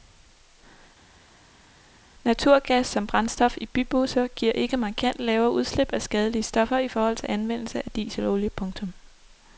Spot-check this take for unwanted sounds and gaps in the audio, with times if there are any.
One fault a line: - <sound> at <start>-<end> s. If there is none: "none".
none